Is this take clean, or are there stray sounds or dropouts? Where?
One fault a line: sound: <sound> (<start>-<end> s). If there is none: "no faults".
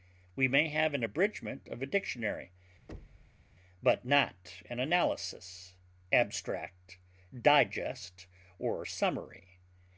sound: thud (2.9-3.4 s)